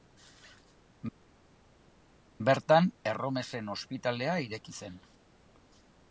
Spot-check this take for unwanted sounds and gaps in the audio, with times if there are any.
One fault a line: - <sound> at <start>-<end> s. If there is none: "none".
none